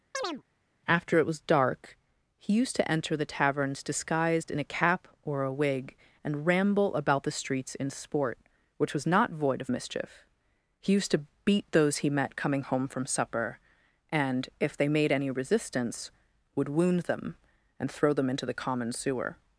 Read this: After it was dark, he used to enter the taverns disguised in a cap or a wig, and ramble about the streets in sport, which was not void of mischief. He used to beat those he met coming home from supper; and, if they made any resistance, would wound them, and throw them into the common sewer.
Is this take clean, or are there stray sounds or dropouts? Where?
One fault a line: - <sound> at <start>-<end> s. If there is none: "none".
- chirp at 0.1-0.4 s